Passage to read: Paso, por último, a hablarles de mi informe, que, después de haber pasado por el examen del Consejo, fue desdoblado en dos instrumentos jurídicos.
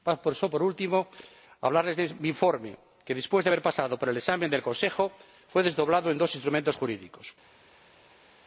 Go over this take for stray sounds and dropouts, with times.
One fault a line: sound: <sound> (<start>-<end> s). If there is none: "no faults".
no faults